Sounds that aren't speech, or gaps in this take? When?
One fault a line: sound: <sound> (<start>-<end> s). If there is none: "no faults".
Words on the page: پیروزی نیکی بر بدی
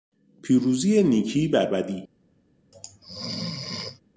sound: sneeze (2.7-4.0 s)